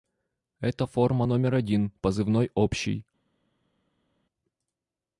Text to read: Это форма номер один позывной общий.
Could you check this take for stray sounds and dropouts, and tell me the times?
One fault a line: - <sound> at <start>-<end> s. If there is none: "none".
none